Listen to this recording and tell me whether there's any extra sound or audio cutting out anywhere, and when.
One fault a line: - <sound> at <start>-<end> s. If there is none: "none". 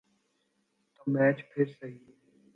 none